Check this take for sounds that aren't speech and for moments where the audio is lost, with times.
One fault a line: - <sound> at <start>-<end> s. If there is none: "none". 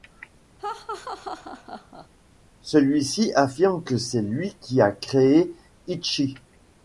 - laugh at 0.6-2.1 s